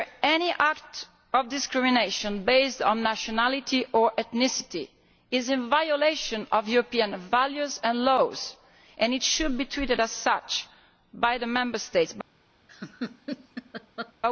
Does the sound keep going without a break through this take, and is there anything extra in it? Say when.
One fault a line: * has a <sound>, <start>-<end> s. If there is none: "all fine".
* has a laugh, 12.7-14.1 s